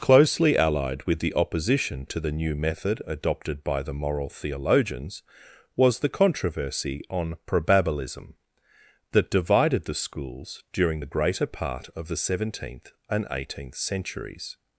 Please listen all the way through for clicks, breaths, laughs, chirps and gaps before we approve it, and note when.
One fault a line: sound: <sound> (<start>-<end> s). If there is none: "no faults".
no faults